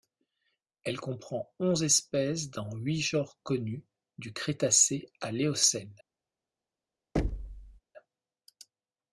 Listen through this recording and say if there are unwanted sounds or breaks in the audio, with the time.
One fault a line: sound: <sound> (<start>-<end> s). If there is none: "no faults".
sound: thud (7.2-7.8 s)